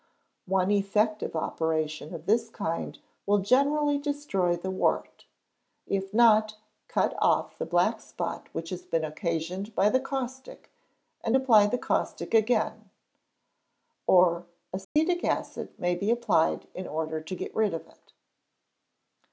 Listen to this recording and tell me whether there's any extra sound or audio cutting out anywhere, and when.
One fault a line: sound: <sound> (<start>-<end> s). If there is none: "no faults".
sound: dropout (14.8-15.0 s)